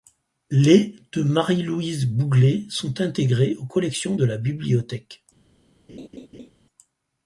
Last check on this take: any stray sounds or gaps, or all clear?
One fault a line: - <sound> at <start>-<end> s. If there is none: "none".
- laugh at 5.9-6.5 s